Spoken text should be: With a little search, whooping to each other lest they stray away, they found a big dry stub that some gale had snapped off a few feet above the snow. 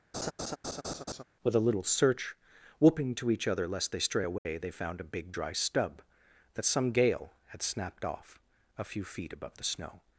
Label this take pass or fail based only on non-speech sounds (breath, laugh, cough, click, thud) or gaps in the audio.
fail